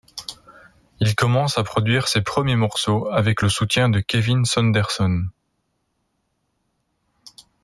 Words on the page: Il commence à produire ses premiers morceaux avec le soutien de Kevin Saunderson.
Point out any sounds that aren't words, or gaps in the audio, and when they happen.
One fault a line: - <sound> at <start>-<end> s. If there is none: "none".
none